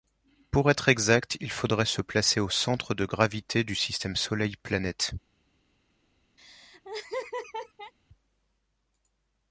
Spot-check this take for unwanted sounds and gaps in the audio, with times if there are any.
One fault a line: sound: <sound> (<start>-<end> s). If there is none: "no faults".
sound: laugh (6.4-7.9 s)